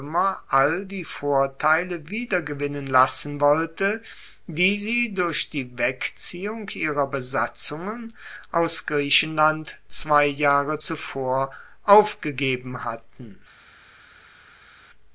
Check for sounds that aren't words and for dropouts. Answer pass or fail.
pass